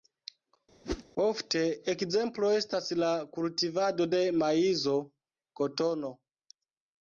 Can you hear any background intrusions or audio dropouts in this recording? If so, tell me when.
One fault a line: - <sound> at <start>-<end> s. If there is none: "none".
- whoosh at 0.8-1.0 s